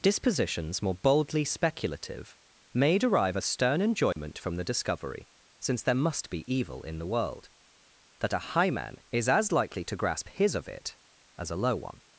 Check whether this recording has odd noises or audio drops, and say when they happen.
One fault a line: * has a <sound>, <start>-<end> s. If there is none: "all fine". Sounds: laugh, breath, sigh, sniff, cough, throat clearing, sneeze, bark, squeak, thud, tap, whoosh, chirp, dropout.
* has a dropout, 4.1-4.2 s